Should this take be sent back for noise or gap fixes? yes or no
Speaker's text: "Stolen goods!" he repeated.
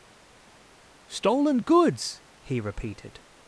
no